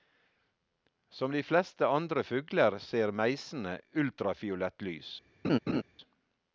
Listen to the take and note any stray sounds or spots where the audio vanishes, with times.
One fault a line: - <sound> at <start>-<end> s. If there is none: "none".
- laugh at 5.4-5.8 s